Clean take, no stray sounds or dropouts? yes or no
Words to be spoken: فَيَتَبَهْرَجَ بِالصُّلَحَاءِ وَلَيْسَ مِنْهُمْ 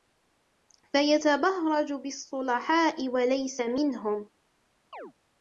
no